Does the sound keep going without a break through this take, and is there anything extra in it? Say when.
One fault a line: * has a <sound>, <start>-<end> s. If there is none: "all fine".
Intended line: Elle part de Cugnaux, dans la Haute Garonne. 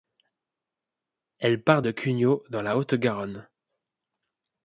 all fine